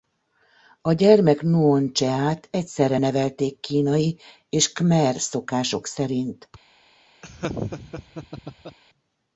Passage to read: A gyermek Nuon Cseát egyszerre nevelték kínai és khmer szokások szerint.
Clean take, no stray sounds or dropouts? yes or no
no